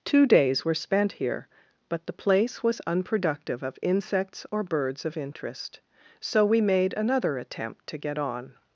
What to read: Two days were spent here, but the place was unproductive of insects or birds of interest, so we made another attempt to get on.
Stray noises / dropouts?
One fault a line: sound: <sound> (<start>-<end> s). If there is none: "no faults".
no faults